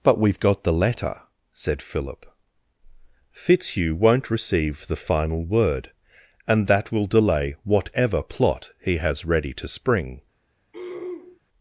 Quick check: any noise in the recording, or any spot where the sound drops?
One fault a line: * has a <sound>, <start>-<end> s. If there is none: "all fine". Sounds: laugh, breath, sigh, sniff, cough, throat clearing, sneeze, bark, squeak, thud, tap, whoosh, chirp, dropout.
* has a throat clearing, 10.7-11.4 s